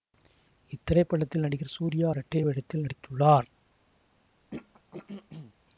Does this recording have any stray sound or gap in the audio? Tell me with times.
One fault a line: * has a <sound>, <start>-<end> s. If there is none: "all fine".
* has a throat clearing, 4.5-5.5 s